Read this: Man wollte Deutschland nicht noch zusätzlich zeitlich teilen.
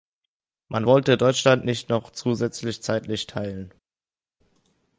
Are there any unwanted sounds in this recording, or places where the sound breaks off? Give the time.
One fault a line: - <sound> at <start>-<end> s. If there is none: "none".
none